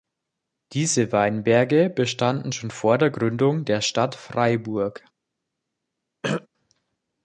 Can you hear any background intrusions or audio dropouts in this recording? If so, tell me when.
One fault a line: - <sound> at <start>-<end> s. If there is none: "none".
- throat clearing at 6.2-6.5 s